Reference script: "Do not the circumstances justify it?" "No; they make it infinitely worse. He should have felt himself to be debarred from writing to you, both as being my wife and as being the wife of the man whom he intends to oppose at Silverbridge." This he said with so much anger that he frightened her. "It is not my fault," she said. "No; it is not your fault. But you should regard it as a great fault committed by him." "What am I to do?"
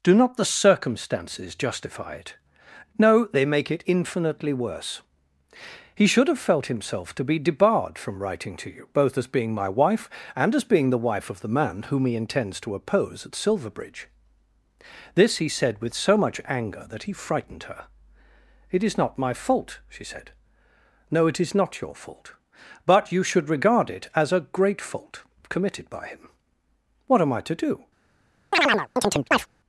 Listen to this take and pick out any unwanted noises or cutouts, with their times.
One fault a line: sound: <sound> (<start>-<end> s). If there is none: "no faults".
sound: chirp (28.5-29.5 s)